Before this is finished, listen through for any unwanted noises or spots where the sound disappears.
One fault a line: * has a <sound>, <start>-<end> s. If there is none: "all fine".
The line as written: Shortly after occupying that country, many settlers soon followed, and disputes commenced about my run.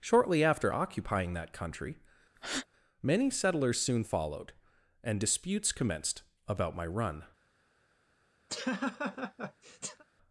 * has a breath, 2.4-2.7 s
* has a laugh, 8.5-10.0 s